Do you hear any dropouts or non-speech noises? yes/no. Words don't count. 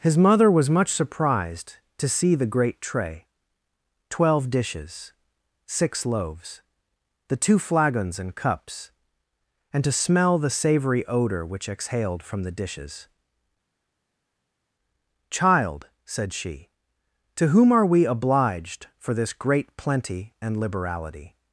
no